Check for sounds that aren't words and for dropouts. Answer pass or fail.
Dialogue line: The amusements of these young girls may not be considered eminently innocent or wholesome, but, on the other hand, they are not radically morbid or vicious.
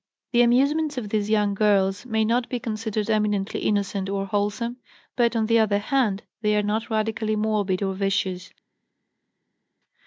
pass